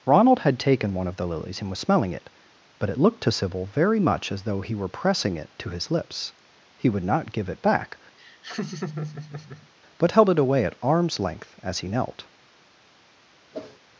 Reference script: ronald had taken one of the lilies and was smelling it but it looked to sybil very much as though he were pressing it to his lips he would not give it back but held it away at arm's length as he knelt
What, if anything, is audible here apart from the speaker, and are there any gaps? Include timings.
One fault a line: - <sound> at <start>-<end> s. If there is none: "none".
- laugh at 8.2-9.7 s
- whoosh at 13.5-13.8 s